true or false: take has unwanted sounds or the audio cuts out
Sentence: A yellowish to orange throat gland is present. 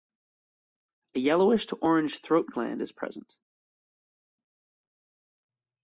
false